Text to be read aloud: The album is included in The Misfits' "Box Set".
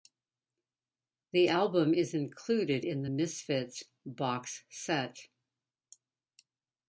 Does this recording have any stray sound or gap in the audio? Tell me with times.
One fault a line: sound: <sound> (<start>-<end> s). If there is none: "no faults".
no faults